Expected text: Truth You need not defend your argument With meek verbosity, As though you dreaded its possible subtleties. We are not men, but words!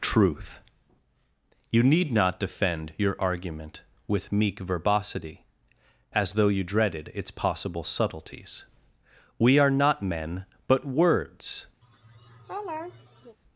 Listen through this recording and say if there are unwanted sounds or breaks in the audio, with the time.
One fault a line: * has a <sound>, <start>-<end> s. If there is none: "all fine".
* has a laugh, 11.8-13.4 s